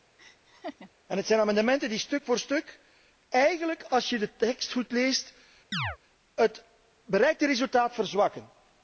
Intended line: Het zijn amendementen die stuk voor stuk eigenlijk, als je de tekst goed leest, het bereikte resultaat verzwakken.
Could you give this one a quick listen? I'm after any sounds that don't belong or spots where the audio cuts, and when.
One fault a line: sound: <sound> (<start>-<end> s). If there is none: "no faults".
sound: laugh (0.2-0.9 s)
sound: chirp (5.7-6.0 s)